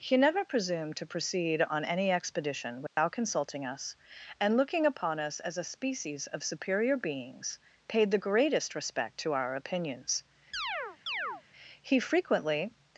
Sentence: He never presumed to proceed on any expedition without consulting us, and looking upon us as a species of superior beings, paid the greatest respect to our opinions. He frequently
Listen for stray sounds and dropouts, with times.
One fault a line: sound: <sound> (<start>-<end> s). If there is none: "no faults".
sound: dropout (2.9-3.0 s)
sound: chirp (10.5-11.4 s)